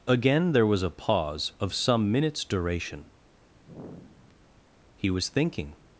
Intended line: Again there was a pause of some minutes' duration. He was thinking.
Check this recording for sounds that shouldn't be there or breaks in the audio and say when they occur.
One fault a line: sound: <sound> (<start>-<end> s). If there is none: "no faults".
sound: sigh (3.6-4.5 s)